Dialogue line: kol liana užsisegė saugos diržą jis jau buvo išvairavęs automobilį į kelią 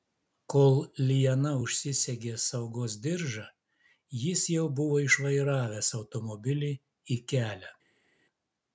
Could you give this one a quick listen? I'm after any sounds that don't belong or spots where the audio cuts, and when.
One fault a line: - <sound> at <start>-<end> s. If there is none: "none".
none